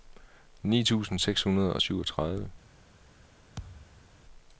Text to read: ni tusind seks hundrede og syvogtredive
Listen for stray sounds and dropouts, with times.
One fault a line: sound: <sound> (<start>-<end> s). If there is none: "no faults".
sound: thud (3.6-4.1 s)